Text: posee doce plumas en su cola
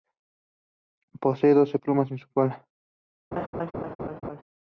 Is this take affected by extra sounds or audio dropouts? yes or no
yes